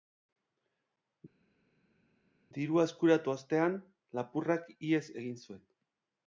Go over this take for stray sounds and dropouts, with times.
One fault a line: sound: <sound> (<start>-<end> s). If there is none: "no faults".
no faults